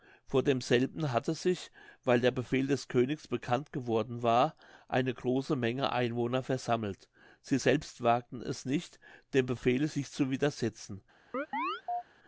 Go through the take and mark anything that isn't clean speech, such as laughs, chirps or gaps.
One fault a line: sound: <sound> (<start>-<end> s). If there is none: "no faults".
sound: chirp (11.3-12.0 s)